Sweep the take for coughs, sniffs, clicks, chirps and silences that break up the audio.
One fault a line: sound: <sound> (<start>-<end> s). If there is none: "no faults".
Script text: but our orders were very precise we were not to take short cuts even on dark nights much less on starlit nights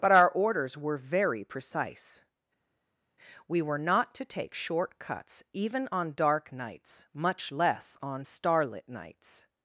no faults